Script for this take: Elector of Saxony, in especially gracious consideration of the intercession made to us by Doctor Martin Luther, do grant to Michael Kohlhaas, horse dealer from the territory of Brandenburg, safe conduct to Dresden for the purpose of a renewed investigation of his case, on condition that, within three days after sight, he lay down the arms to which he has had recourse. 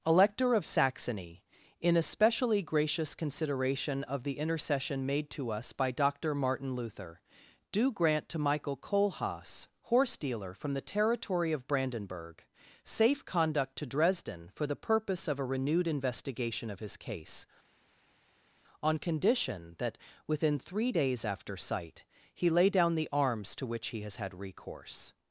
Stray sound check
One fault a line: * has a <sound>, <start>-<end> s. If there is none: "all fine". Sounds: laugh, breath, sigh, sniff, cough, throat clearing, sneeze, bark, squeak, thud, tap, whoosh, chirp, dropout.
all fine